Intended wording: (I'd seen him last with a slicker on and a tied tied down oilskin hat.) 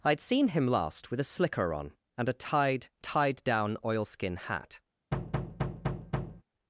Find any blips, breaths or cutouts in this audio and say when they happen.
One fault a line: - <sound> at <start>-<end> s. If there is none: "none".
- thud at 5.1-6.4 s